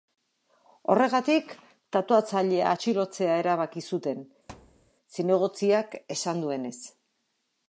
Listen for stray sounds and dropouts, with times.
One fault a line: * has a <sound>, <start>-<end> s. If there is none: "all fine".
* has a thud, 4.5-4.9 s